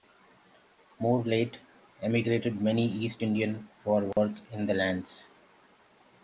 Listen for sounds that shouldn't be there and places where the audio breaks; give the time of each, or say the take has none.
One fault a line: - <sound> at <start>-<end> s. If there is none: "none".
- dropout at 4.1-4.2 s